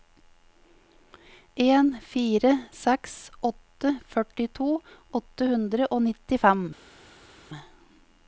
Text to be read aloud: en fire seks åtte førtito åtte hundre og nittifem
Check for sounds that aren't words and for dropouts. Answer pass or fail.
pass